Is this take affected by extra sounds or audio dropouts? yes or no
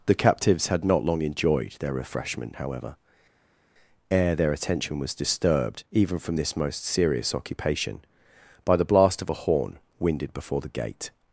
no